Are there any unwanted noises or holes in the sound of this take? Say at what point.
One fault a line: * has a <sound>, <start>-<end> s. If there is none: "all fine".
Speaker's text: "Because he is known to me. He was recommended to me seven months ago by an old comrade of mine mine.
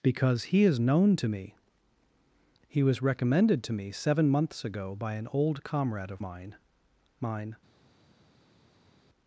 all fine